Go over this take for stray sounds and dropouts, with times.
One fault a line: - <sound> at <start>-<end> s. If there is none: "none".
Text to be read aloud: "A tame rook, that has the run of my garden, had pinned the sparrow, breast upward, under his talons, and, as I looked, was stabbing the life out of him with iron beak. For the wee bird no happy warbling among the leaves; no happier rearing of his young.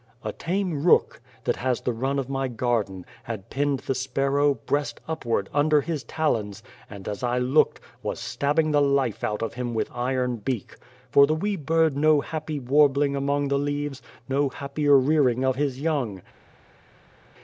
none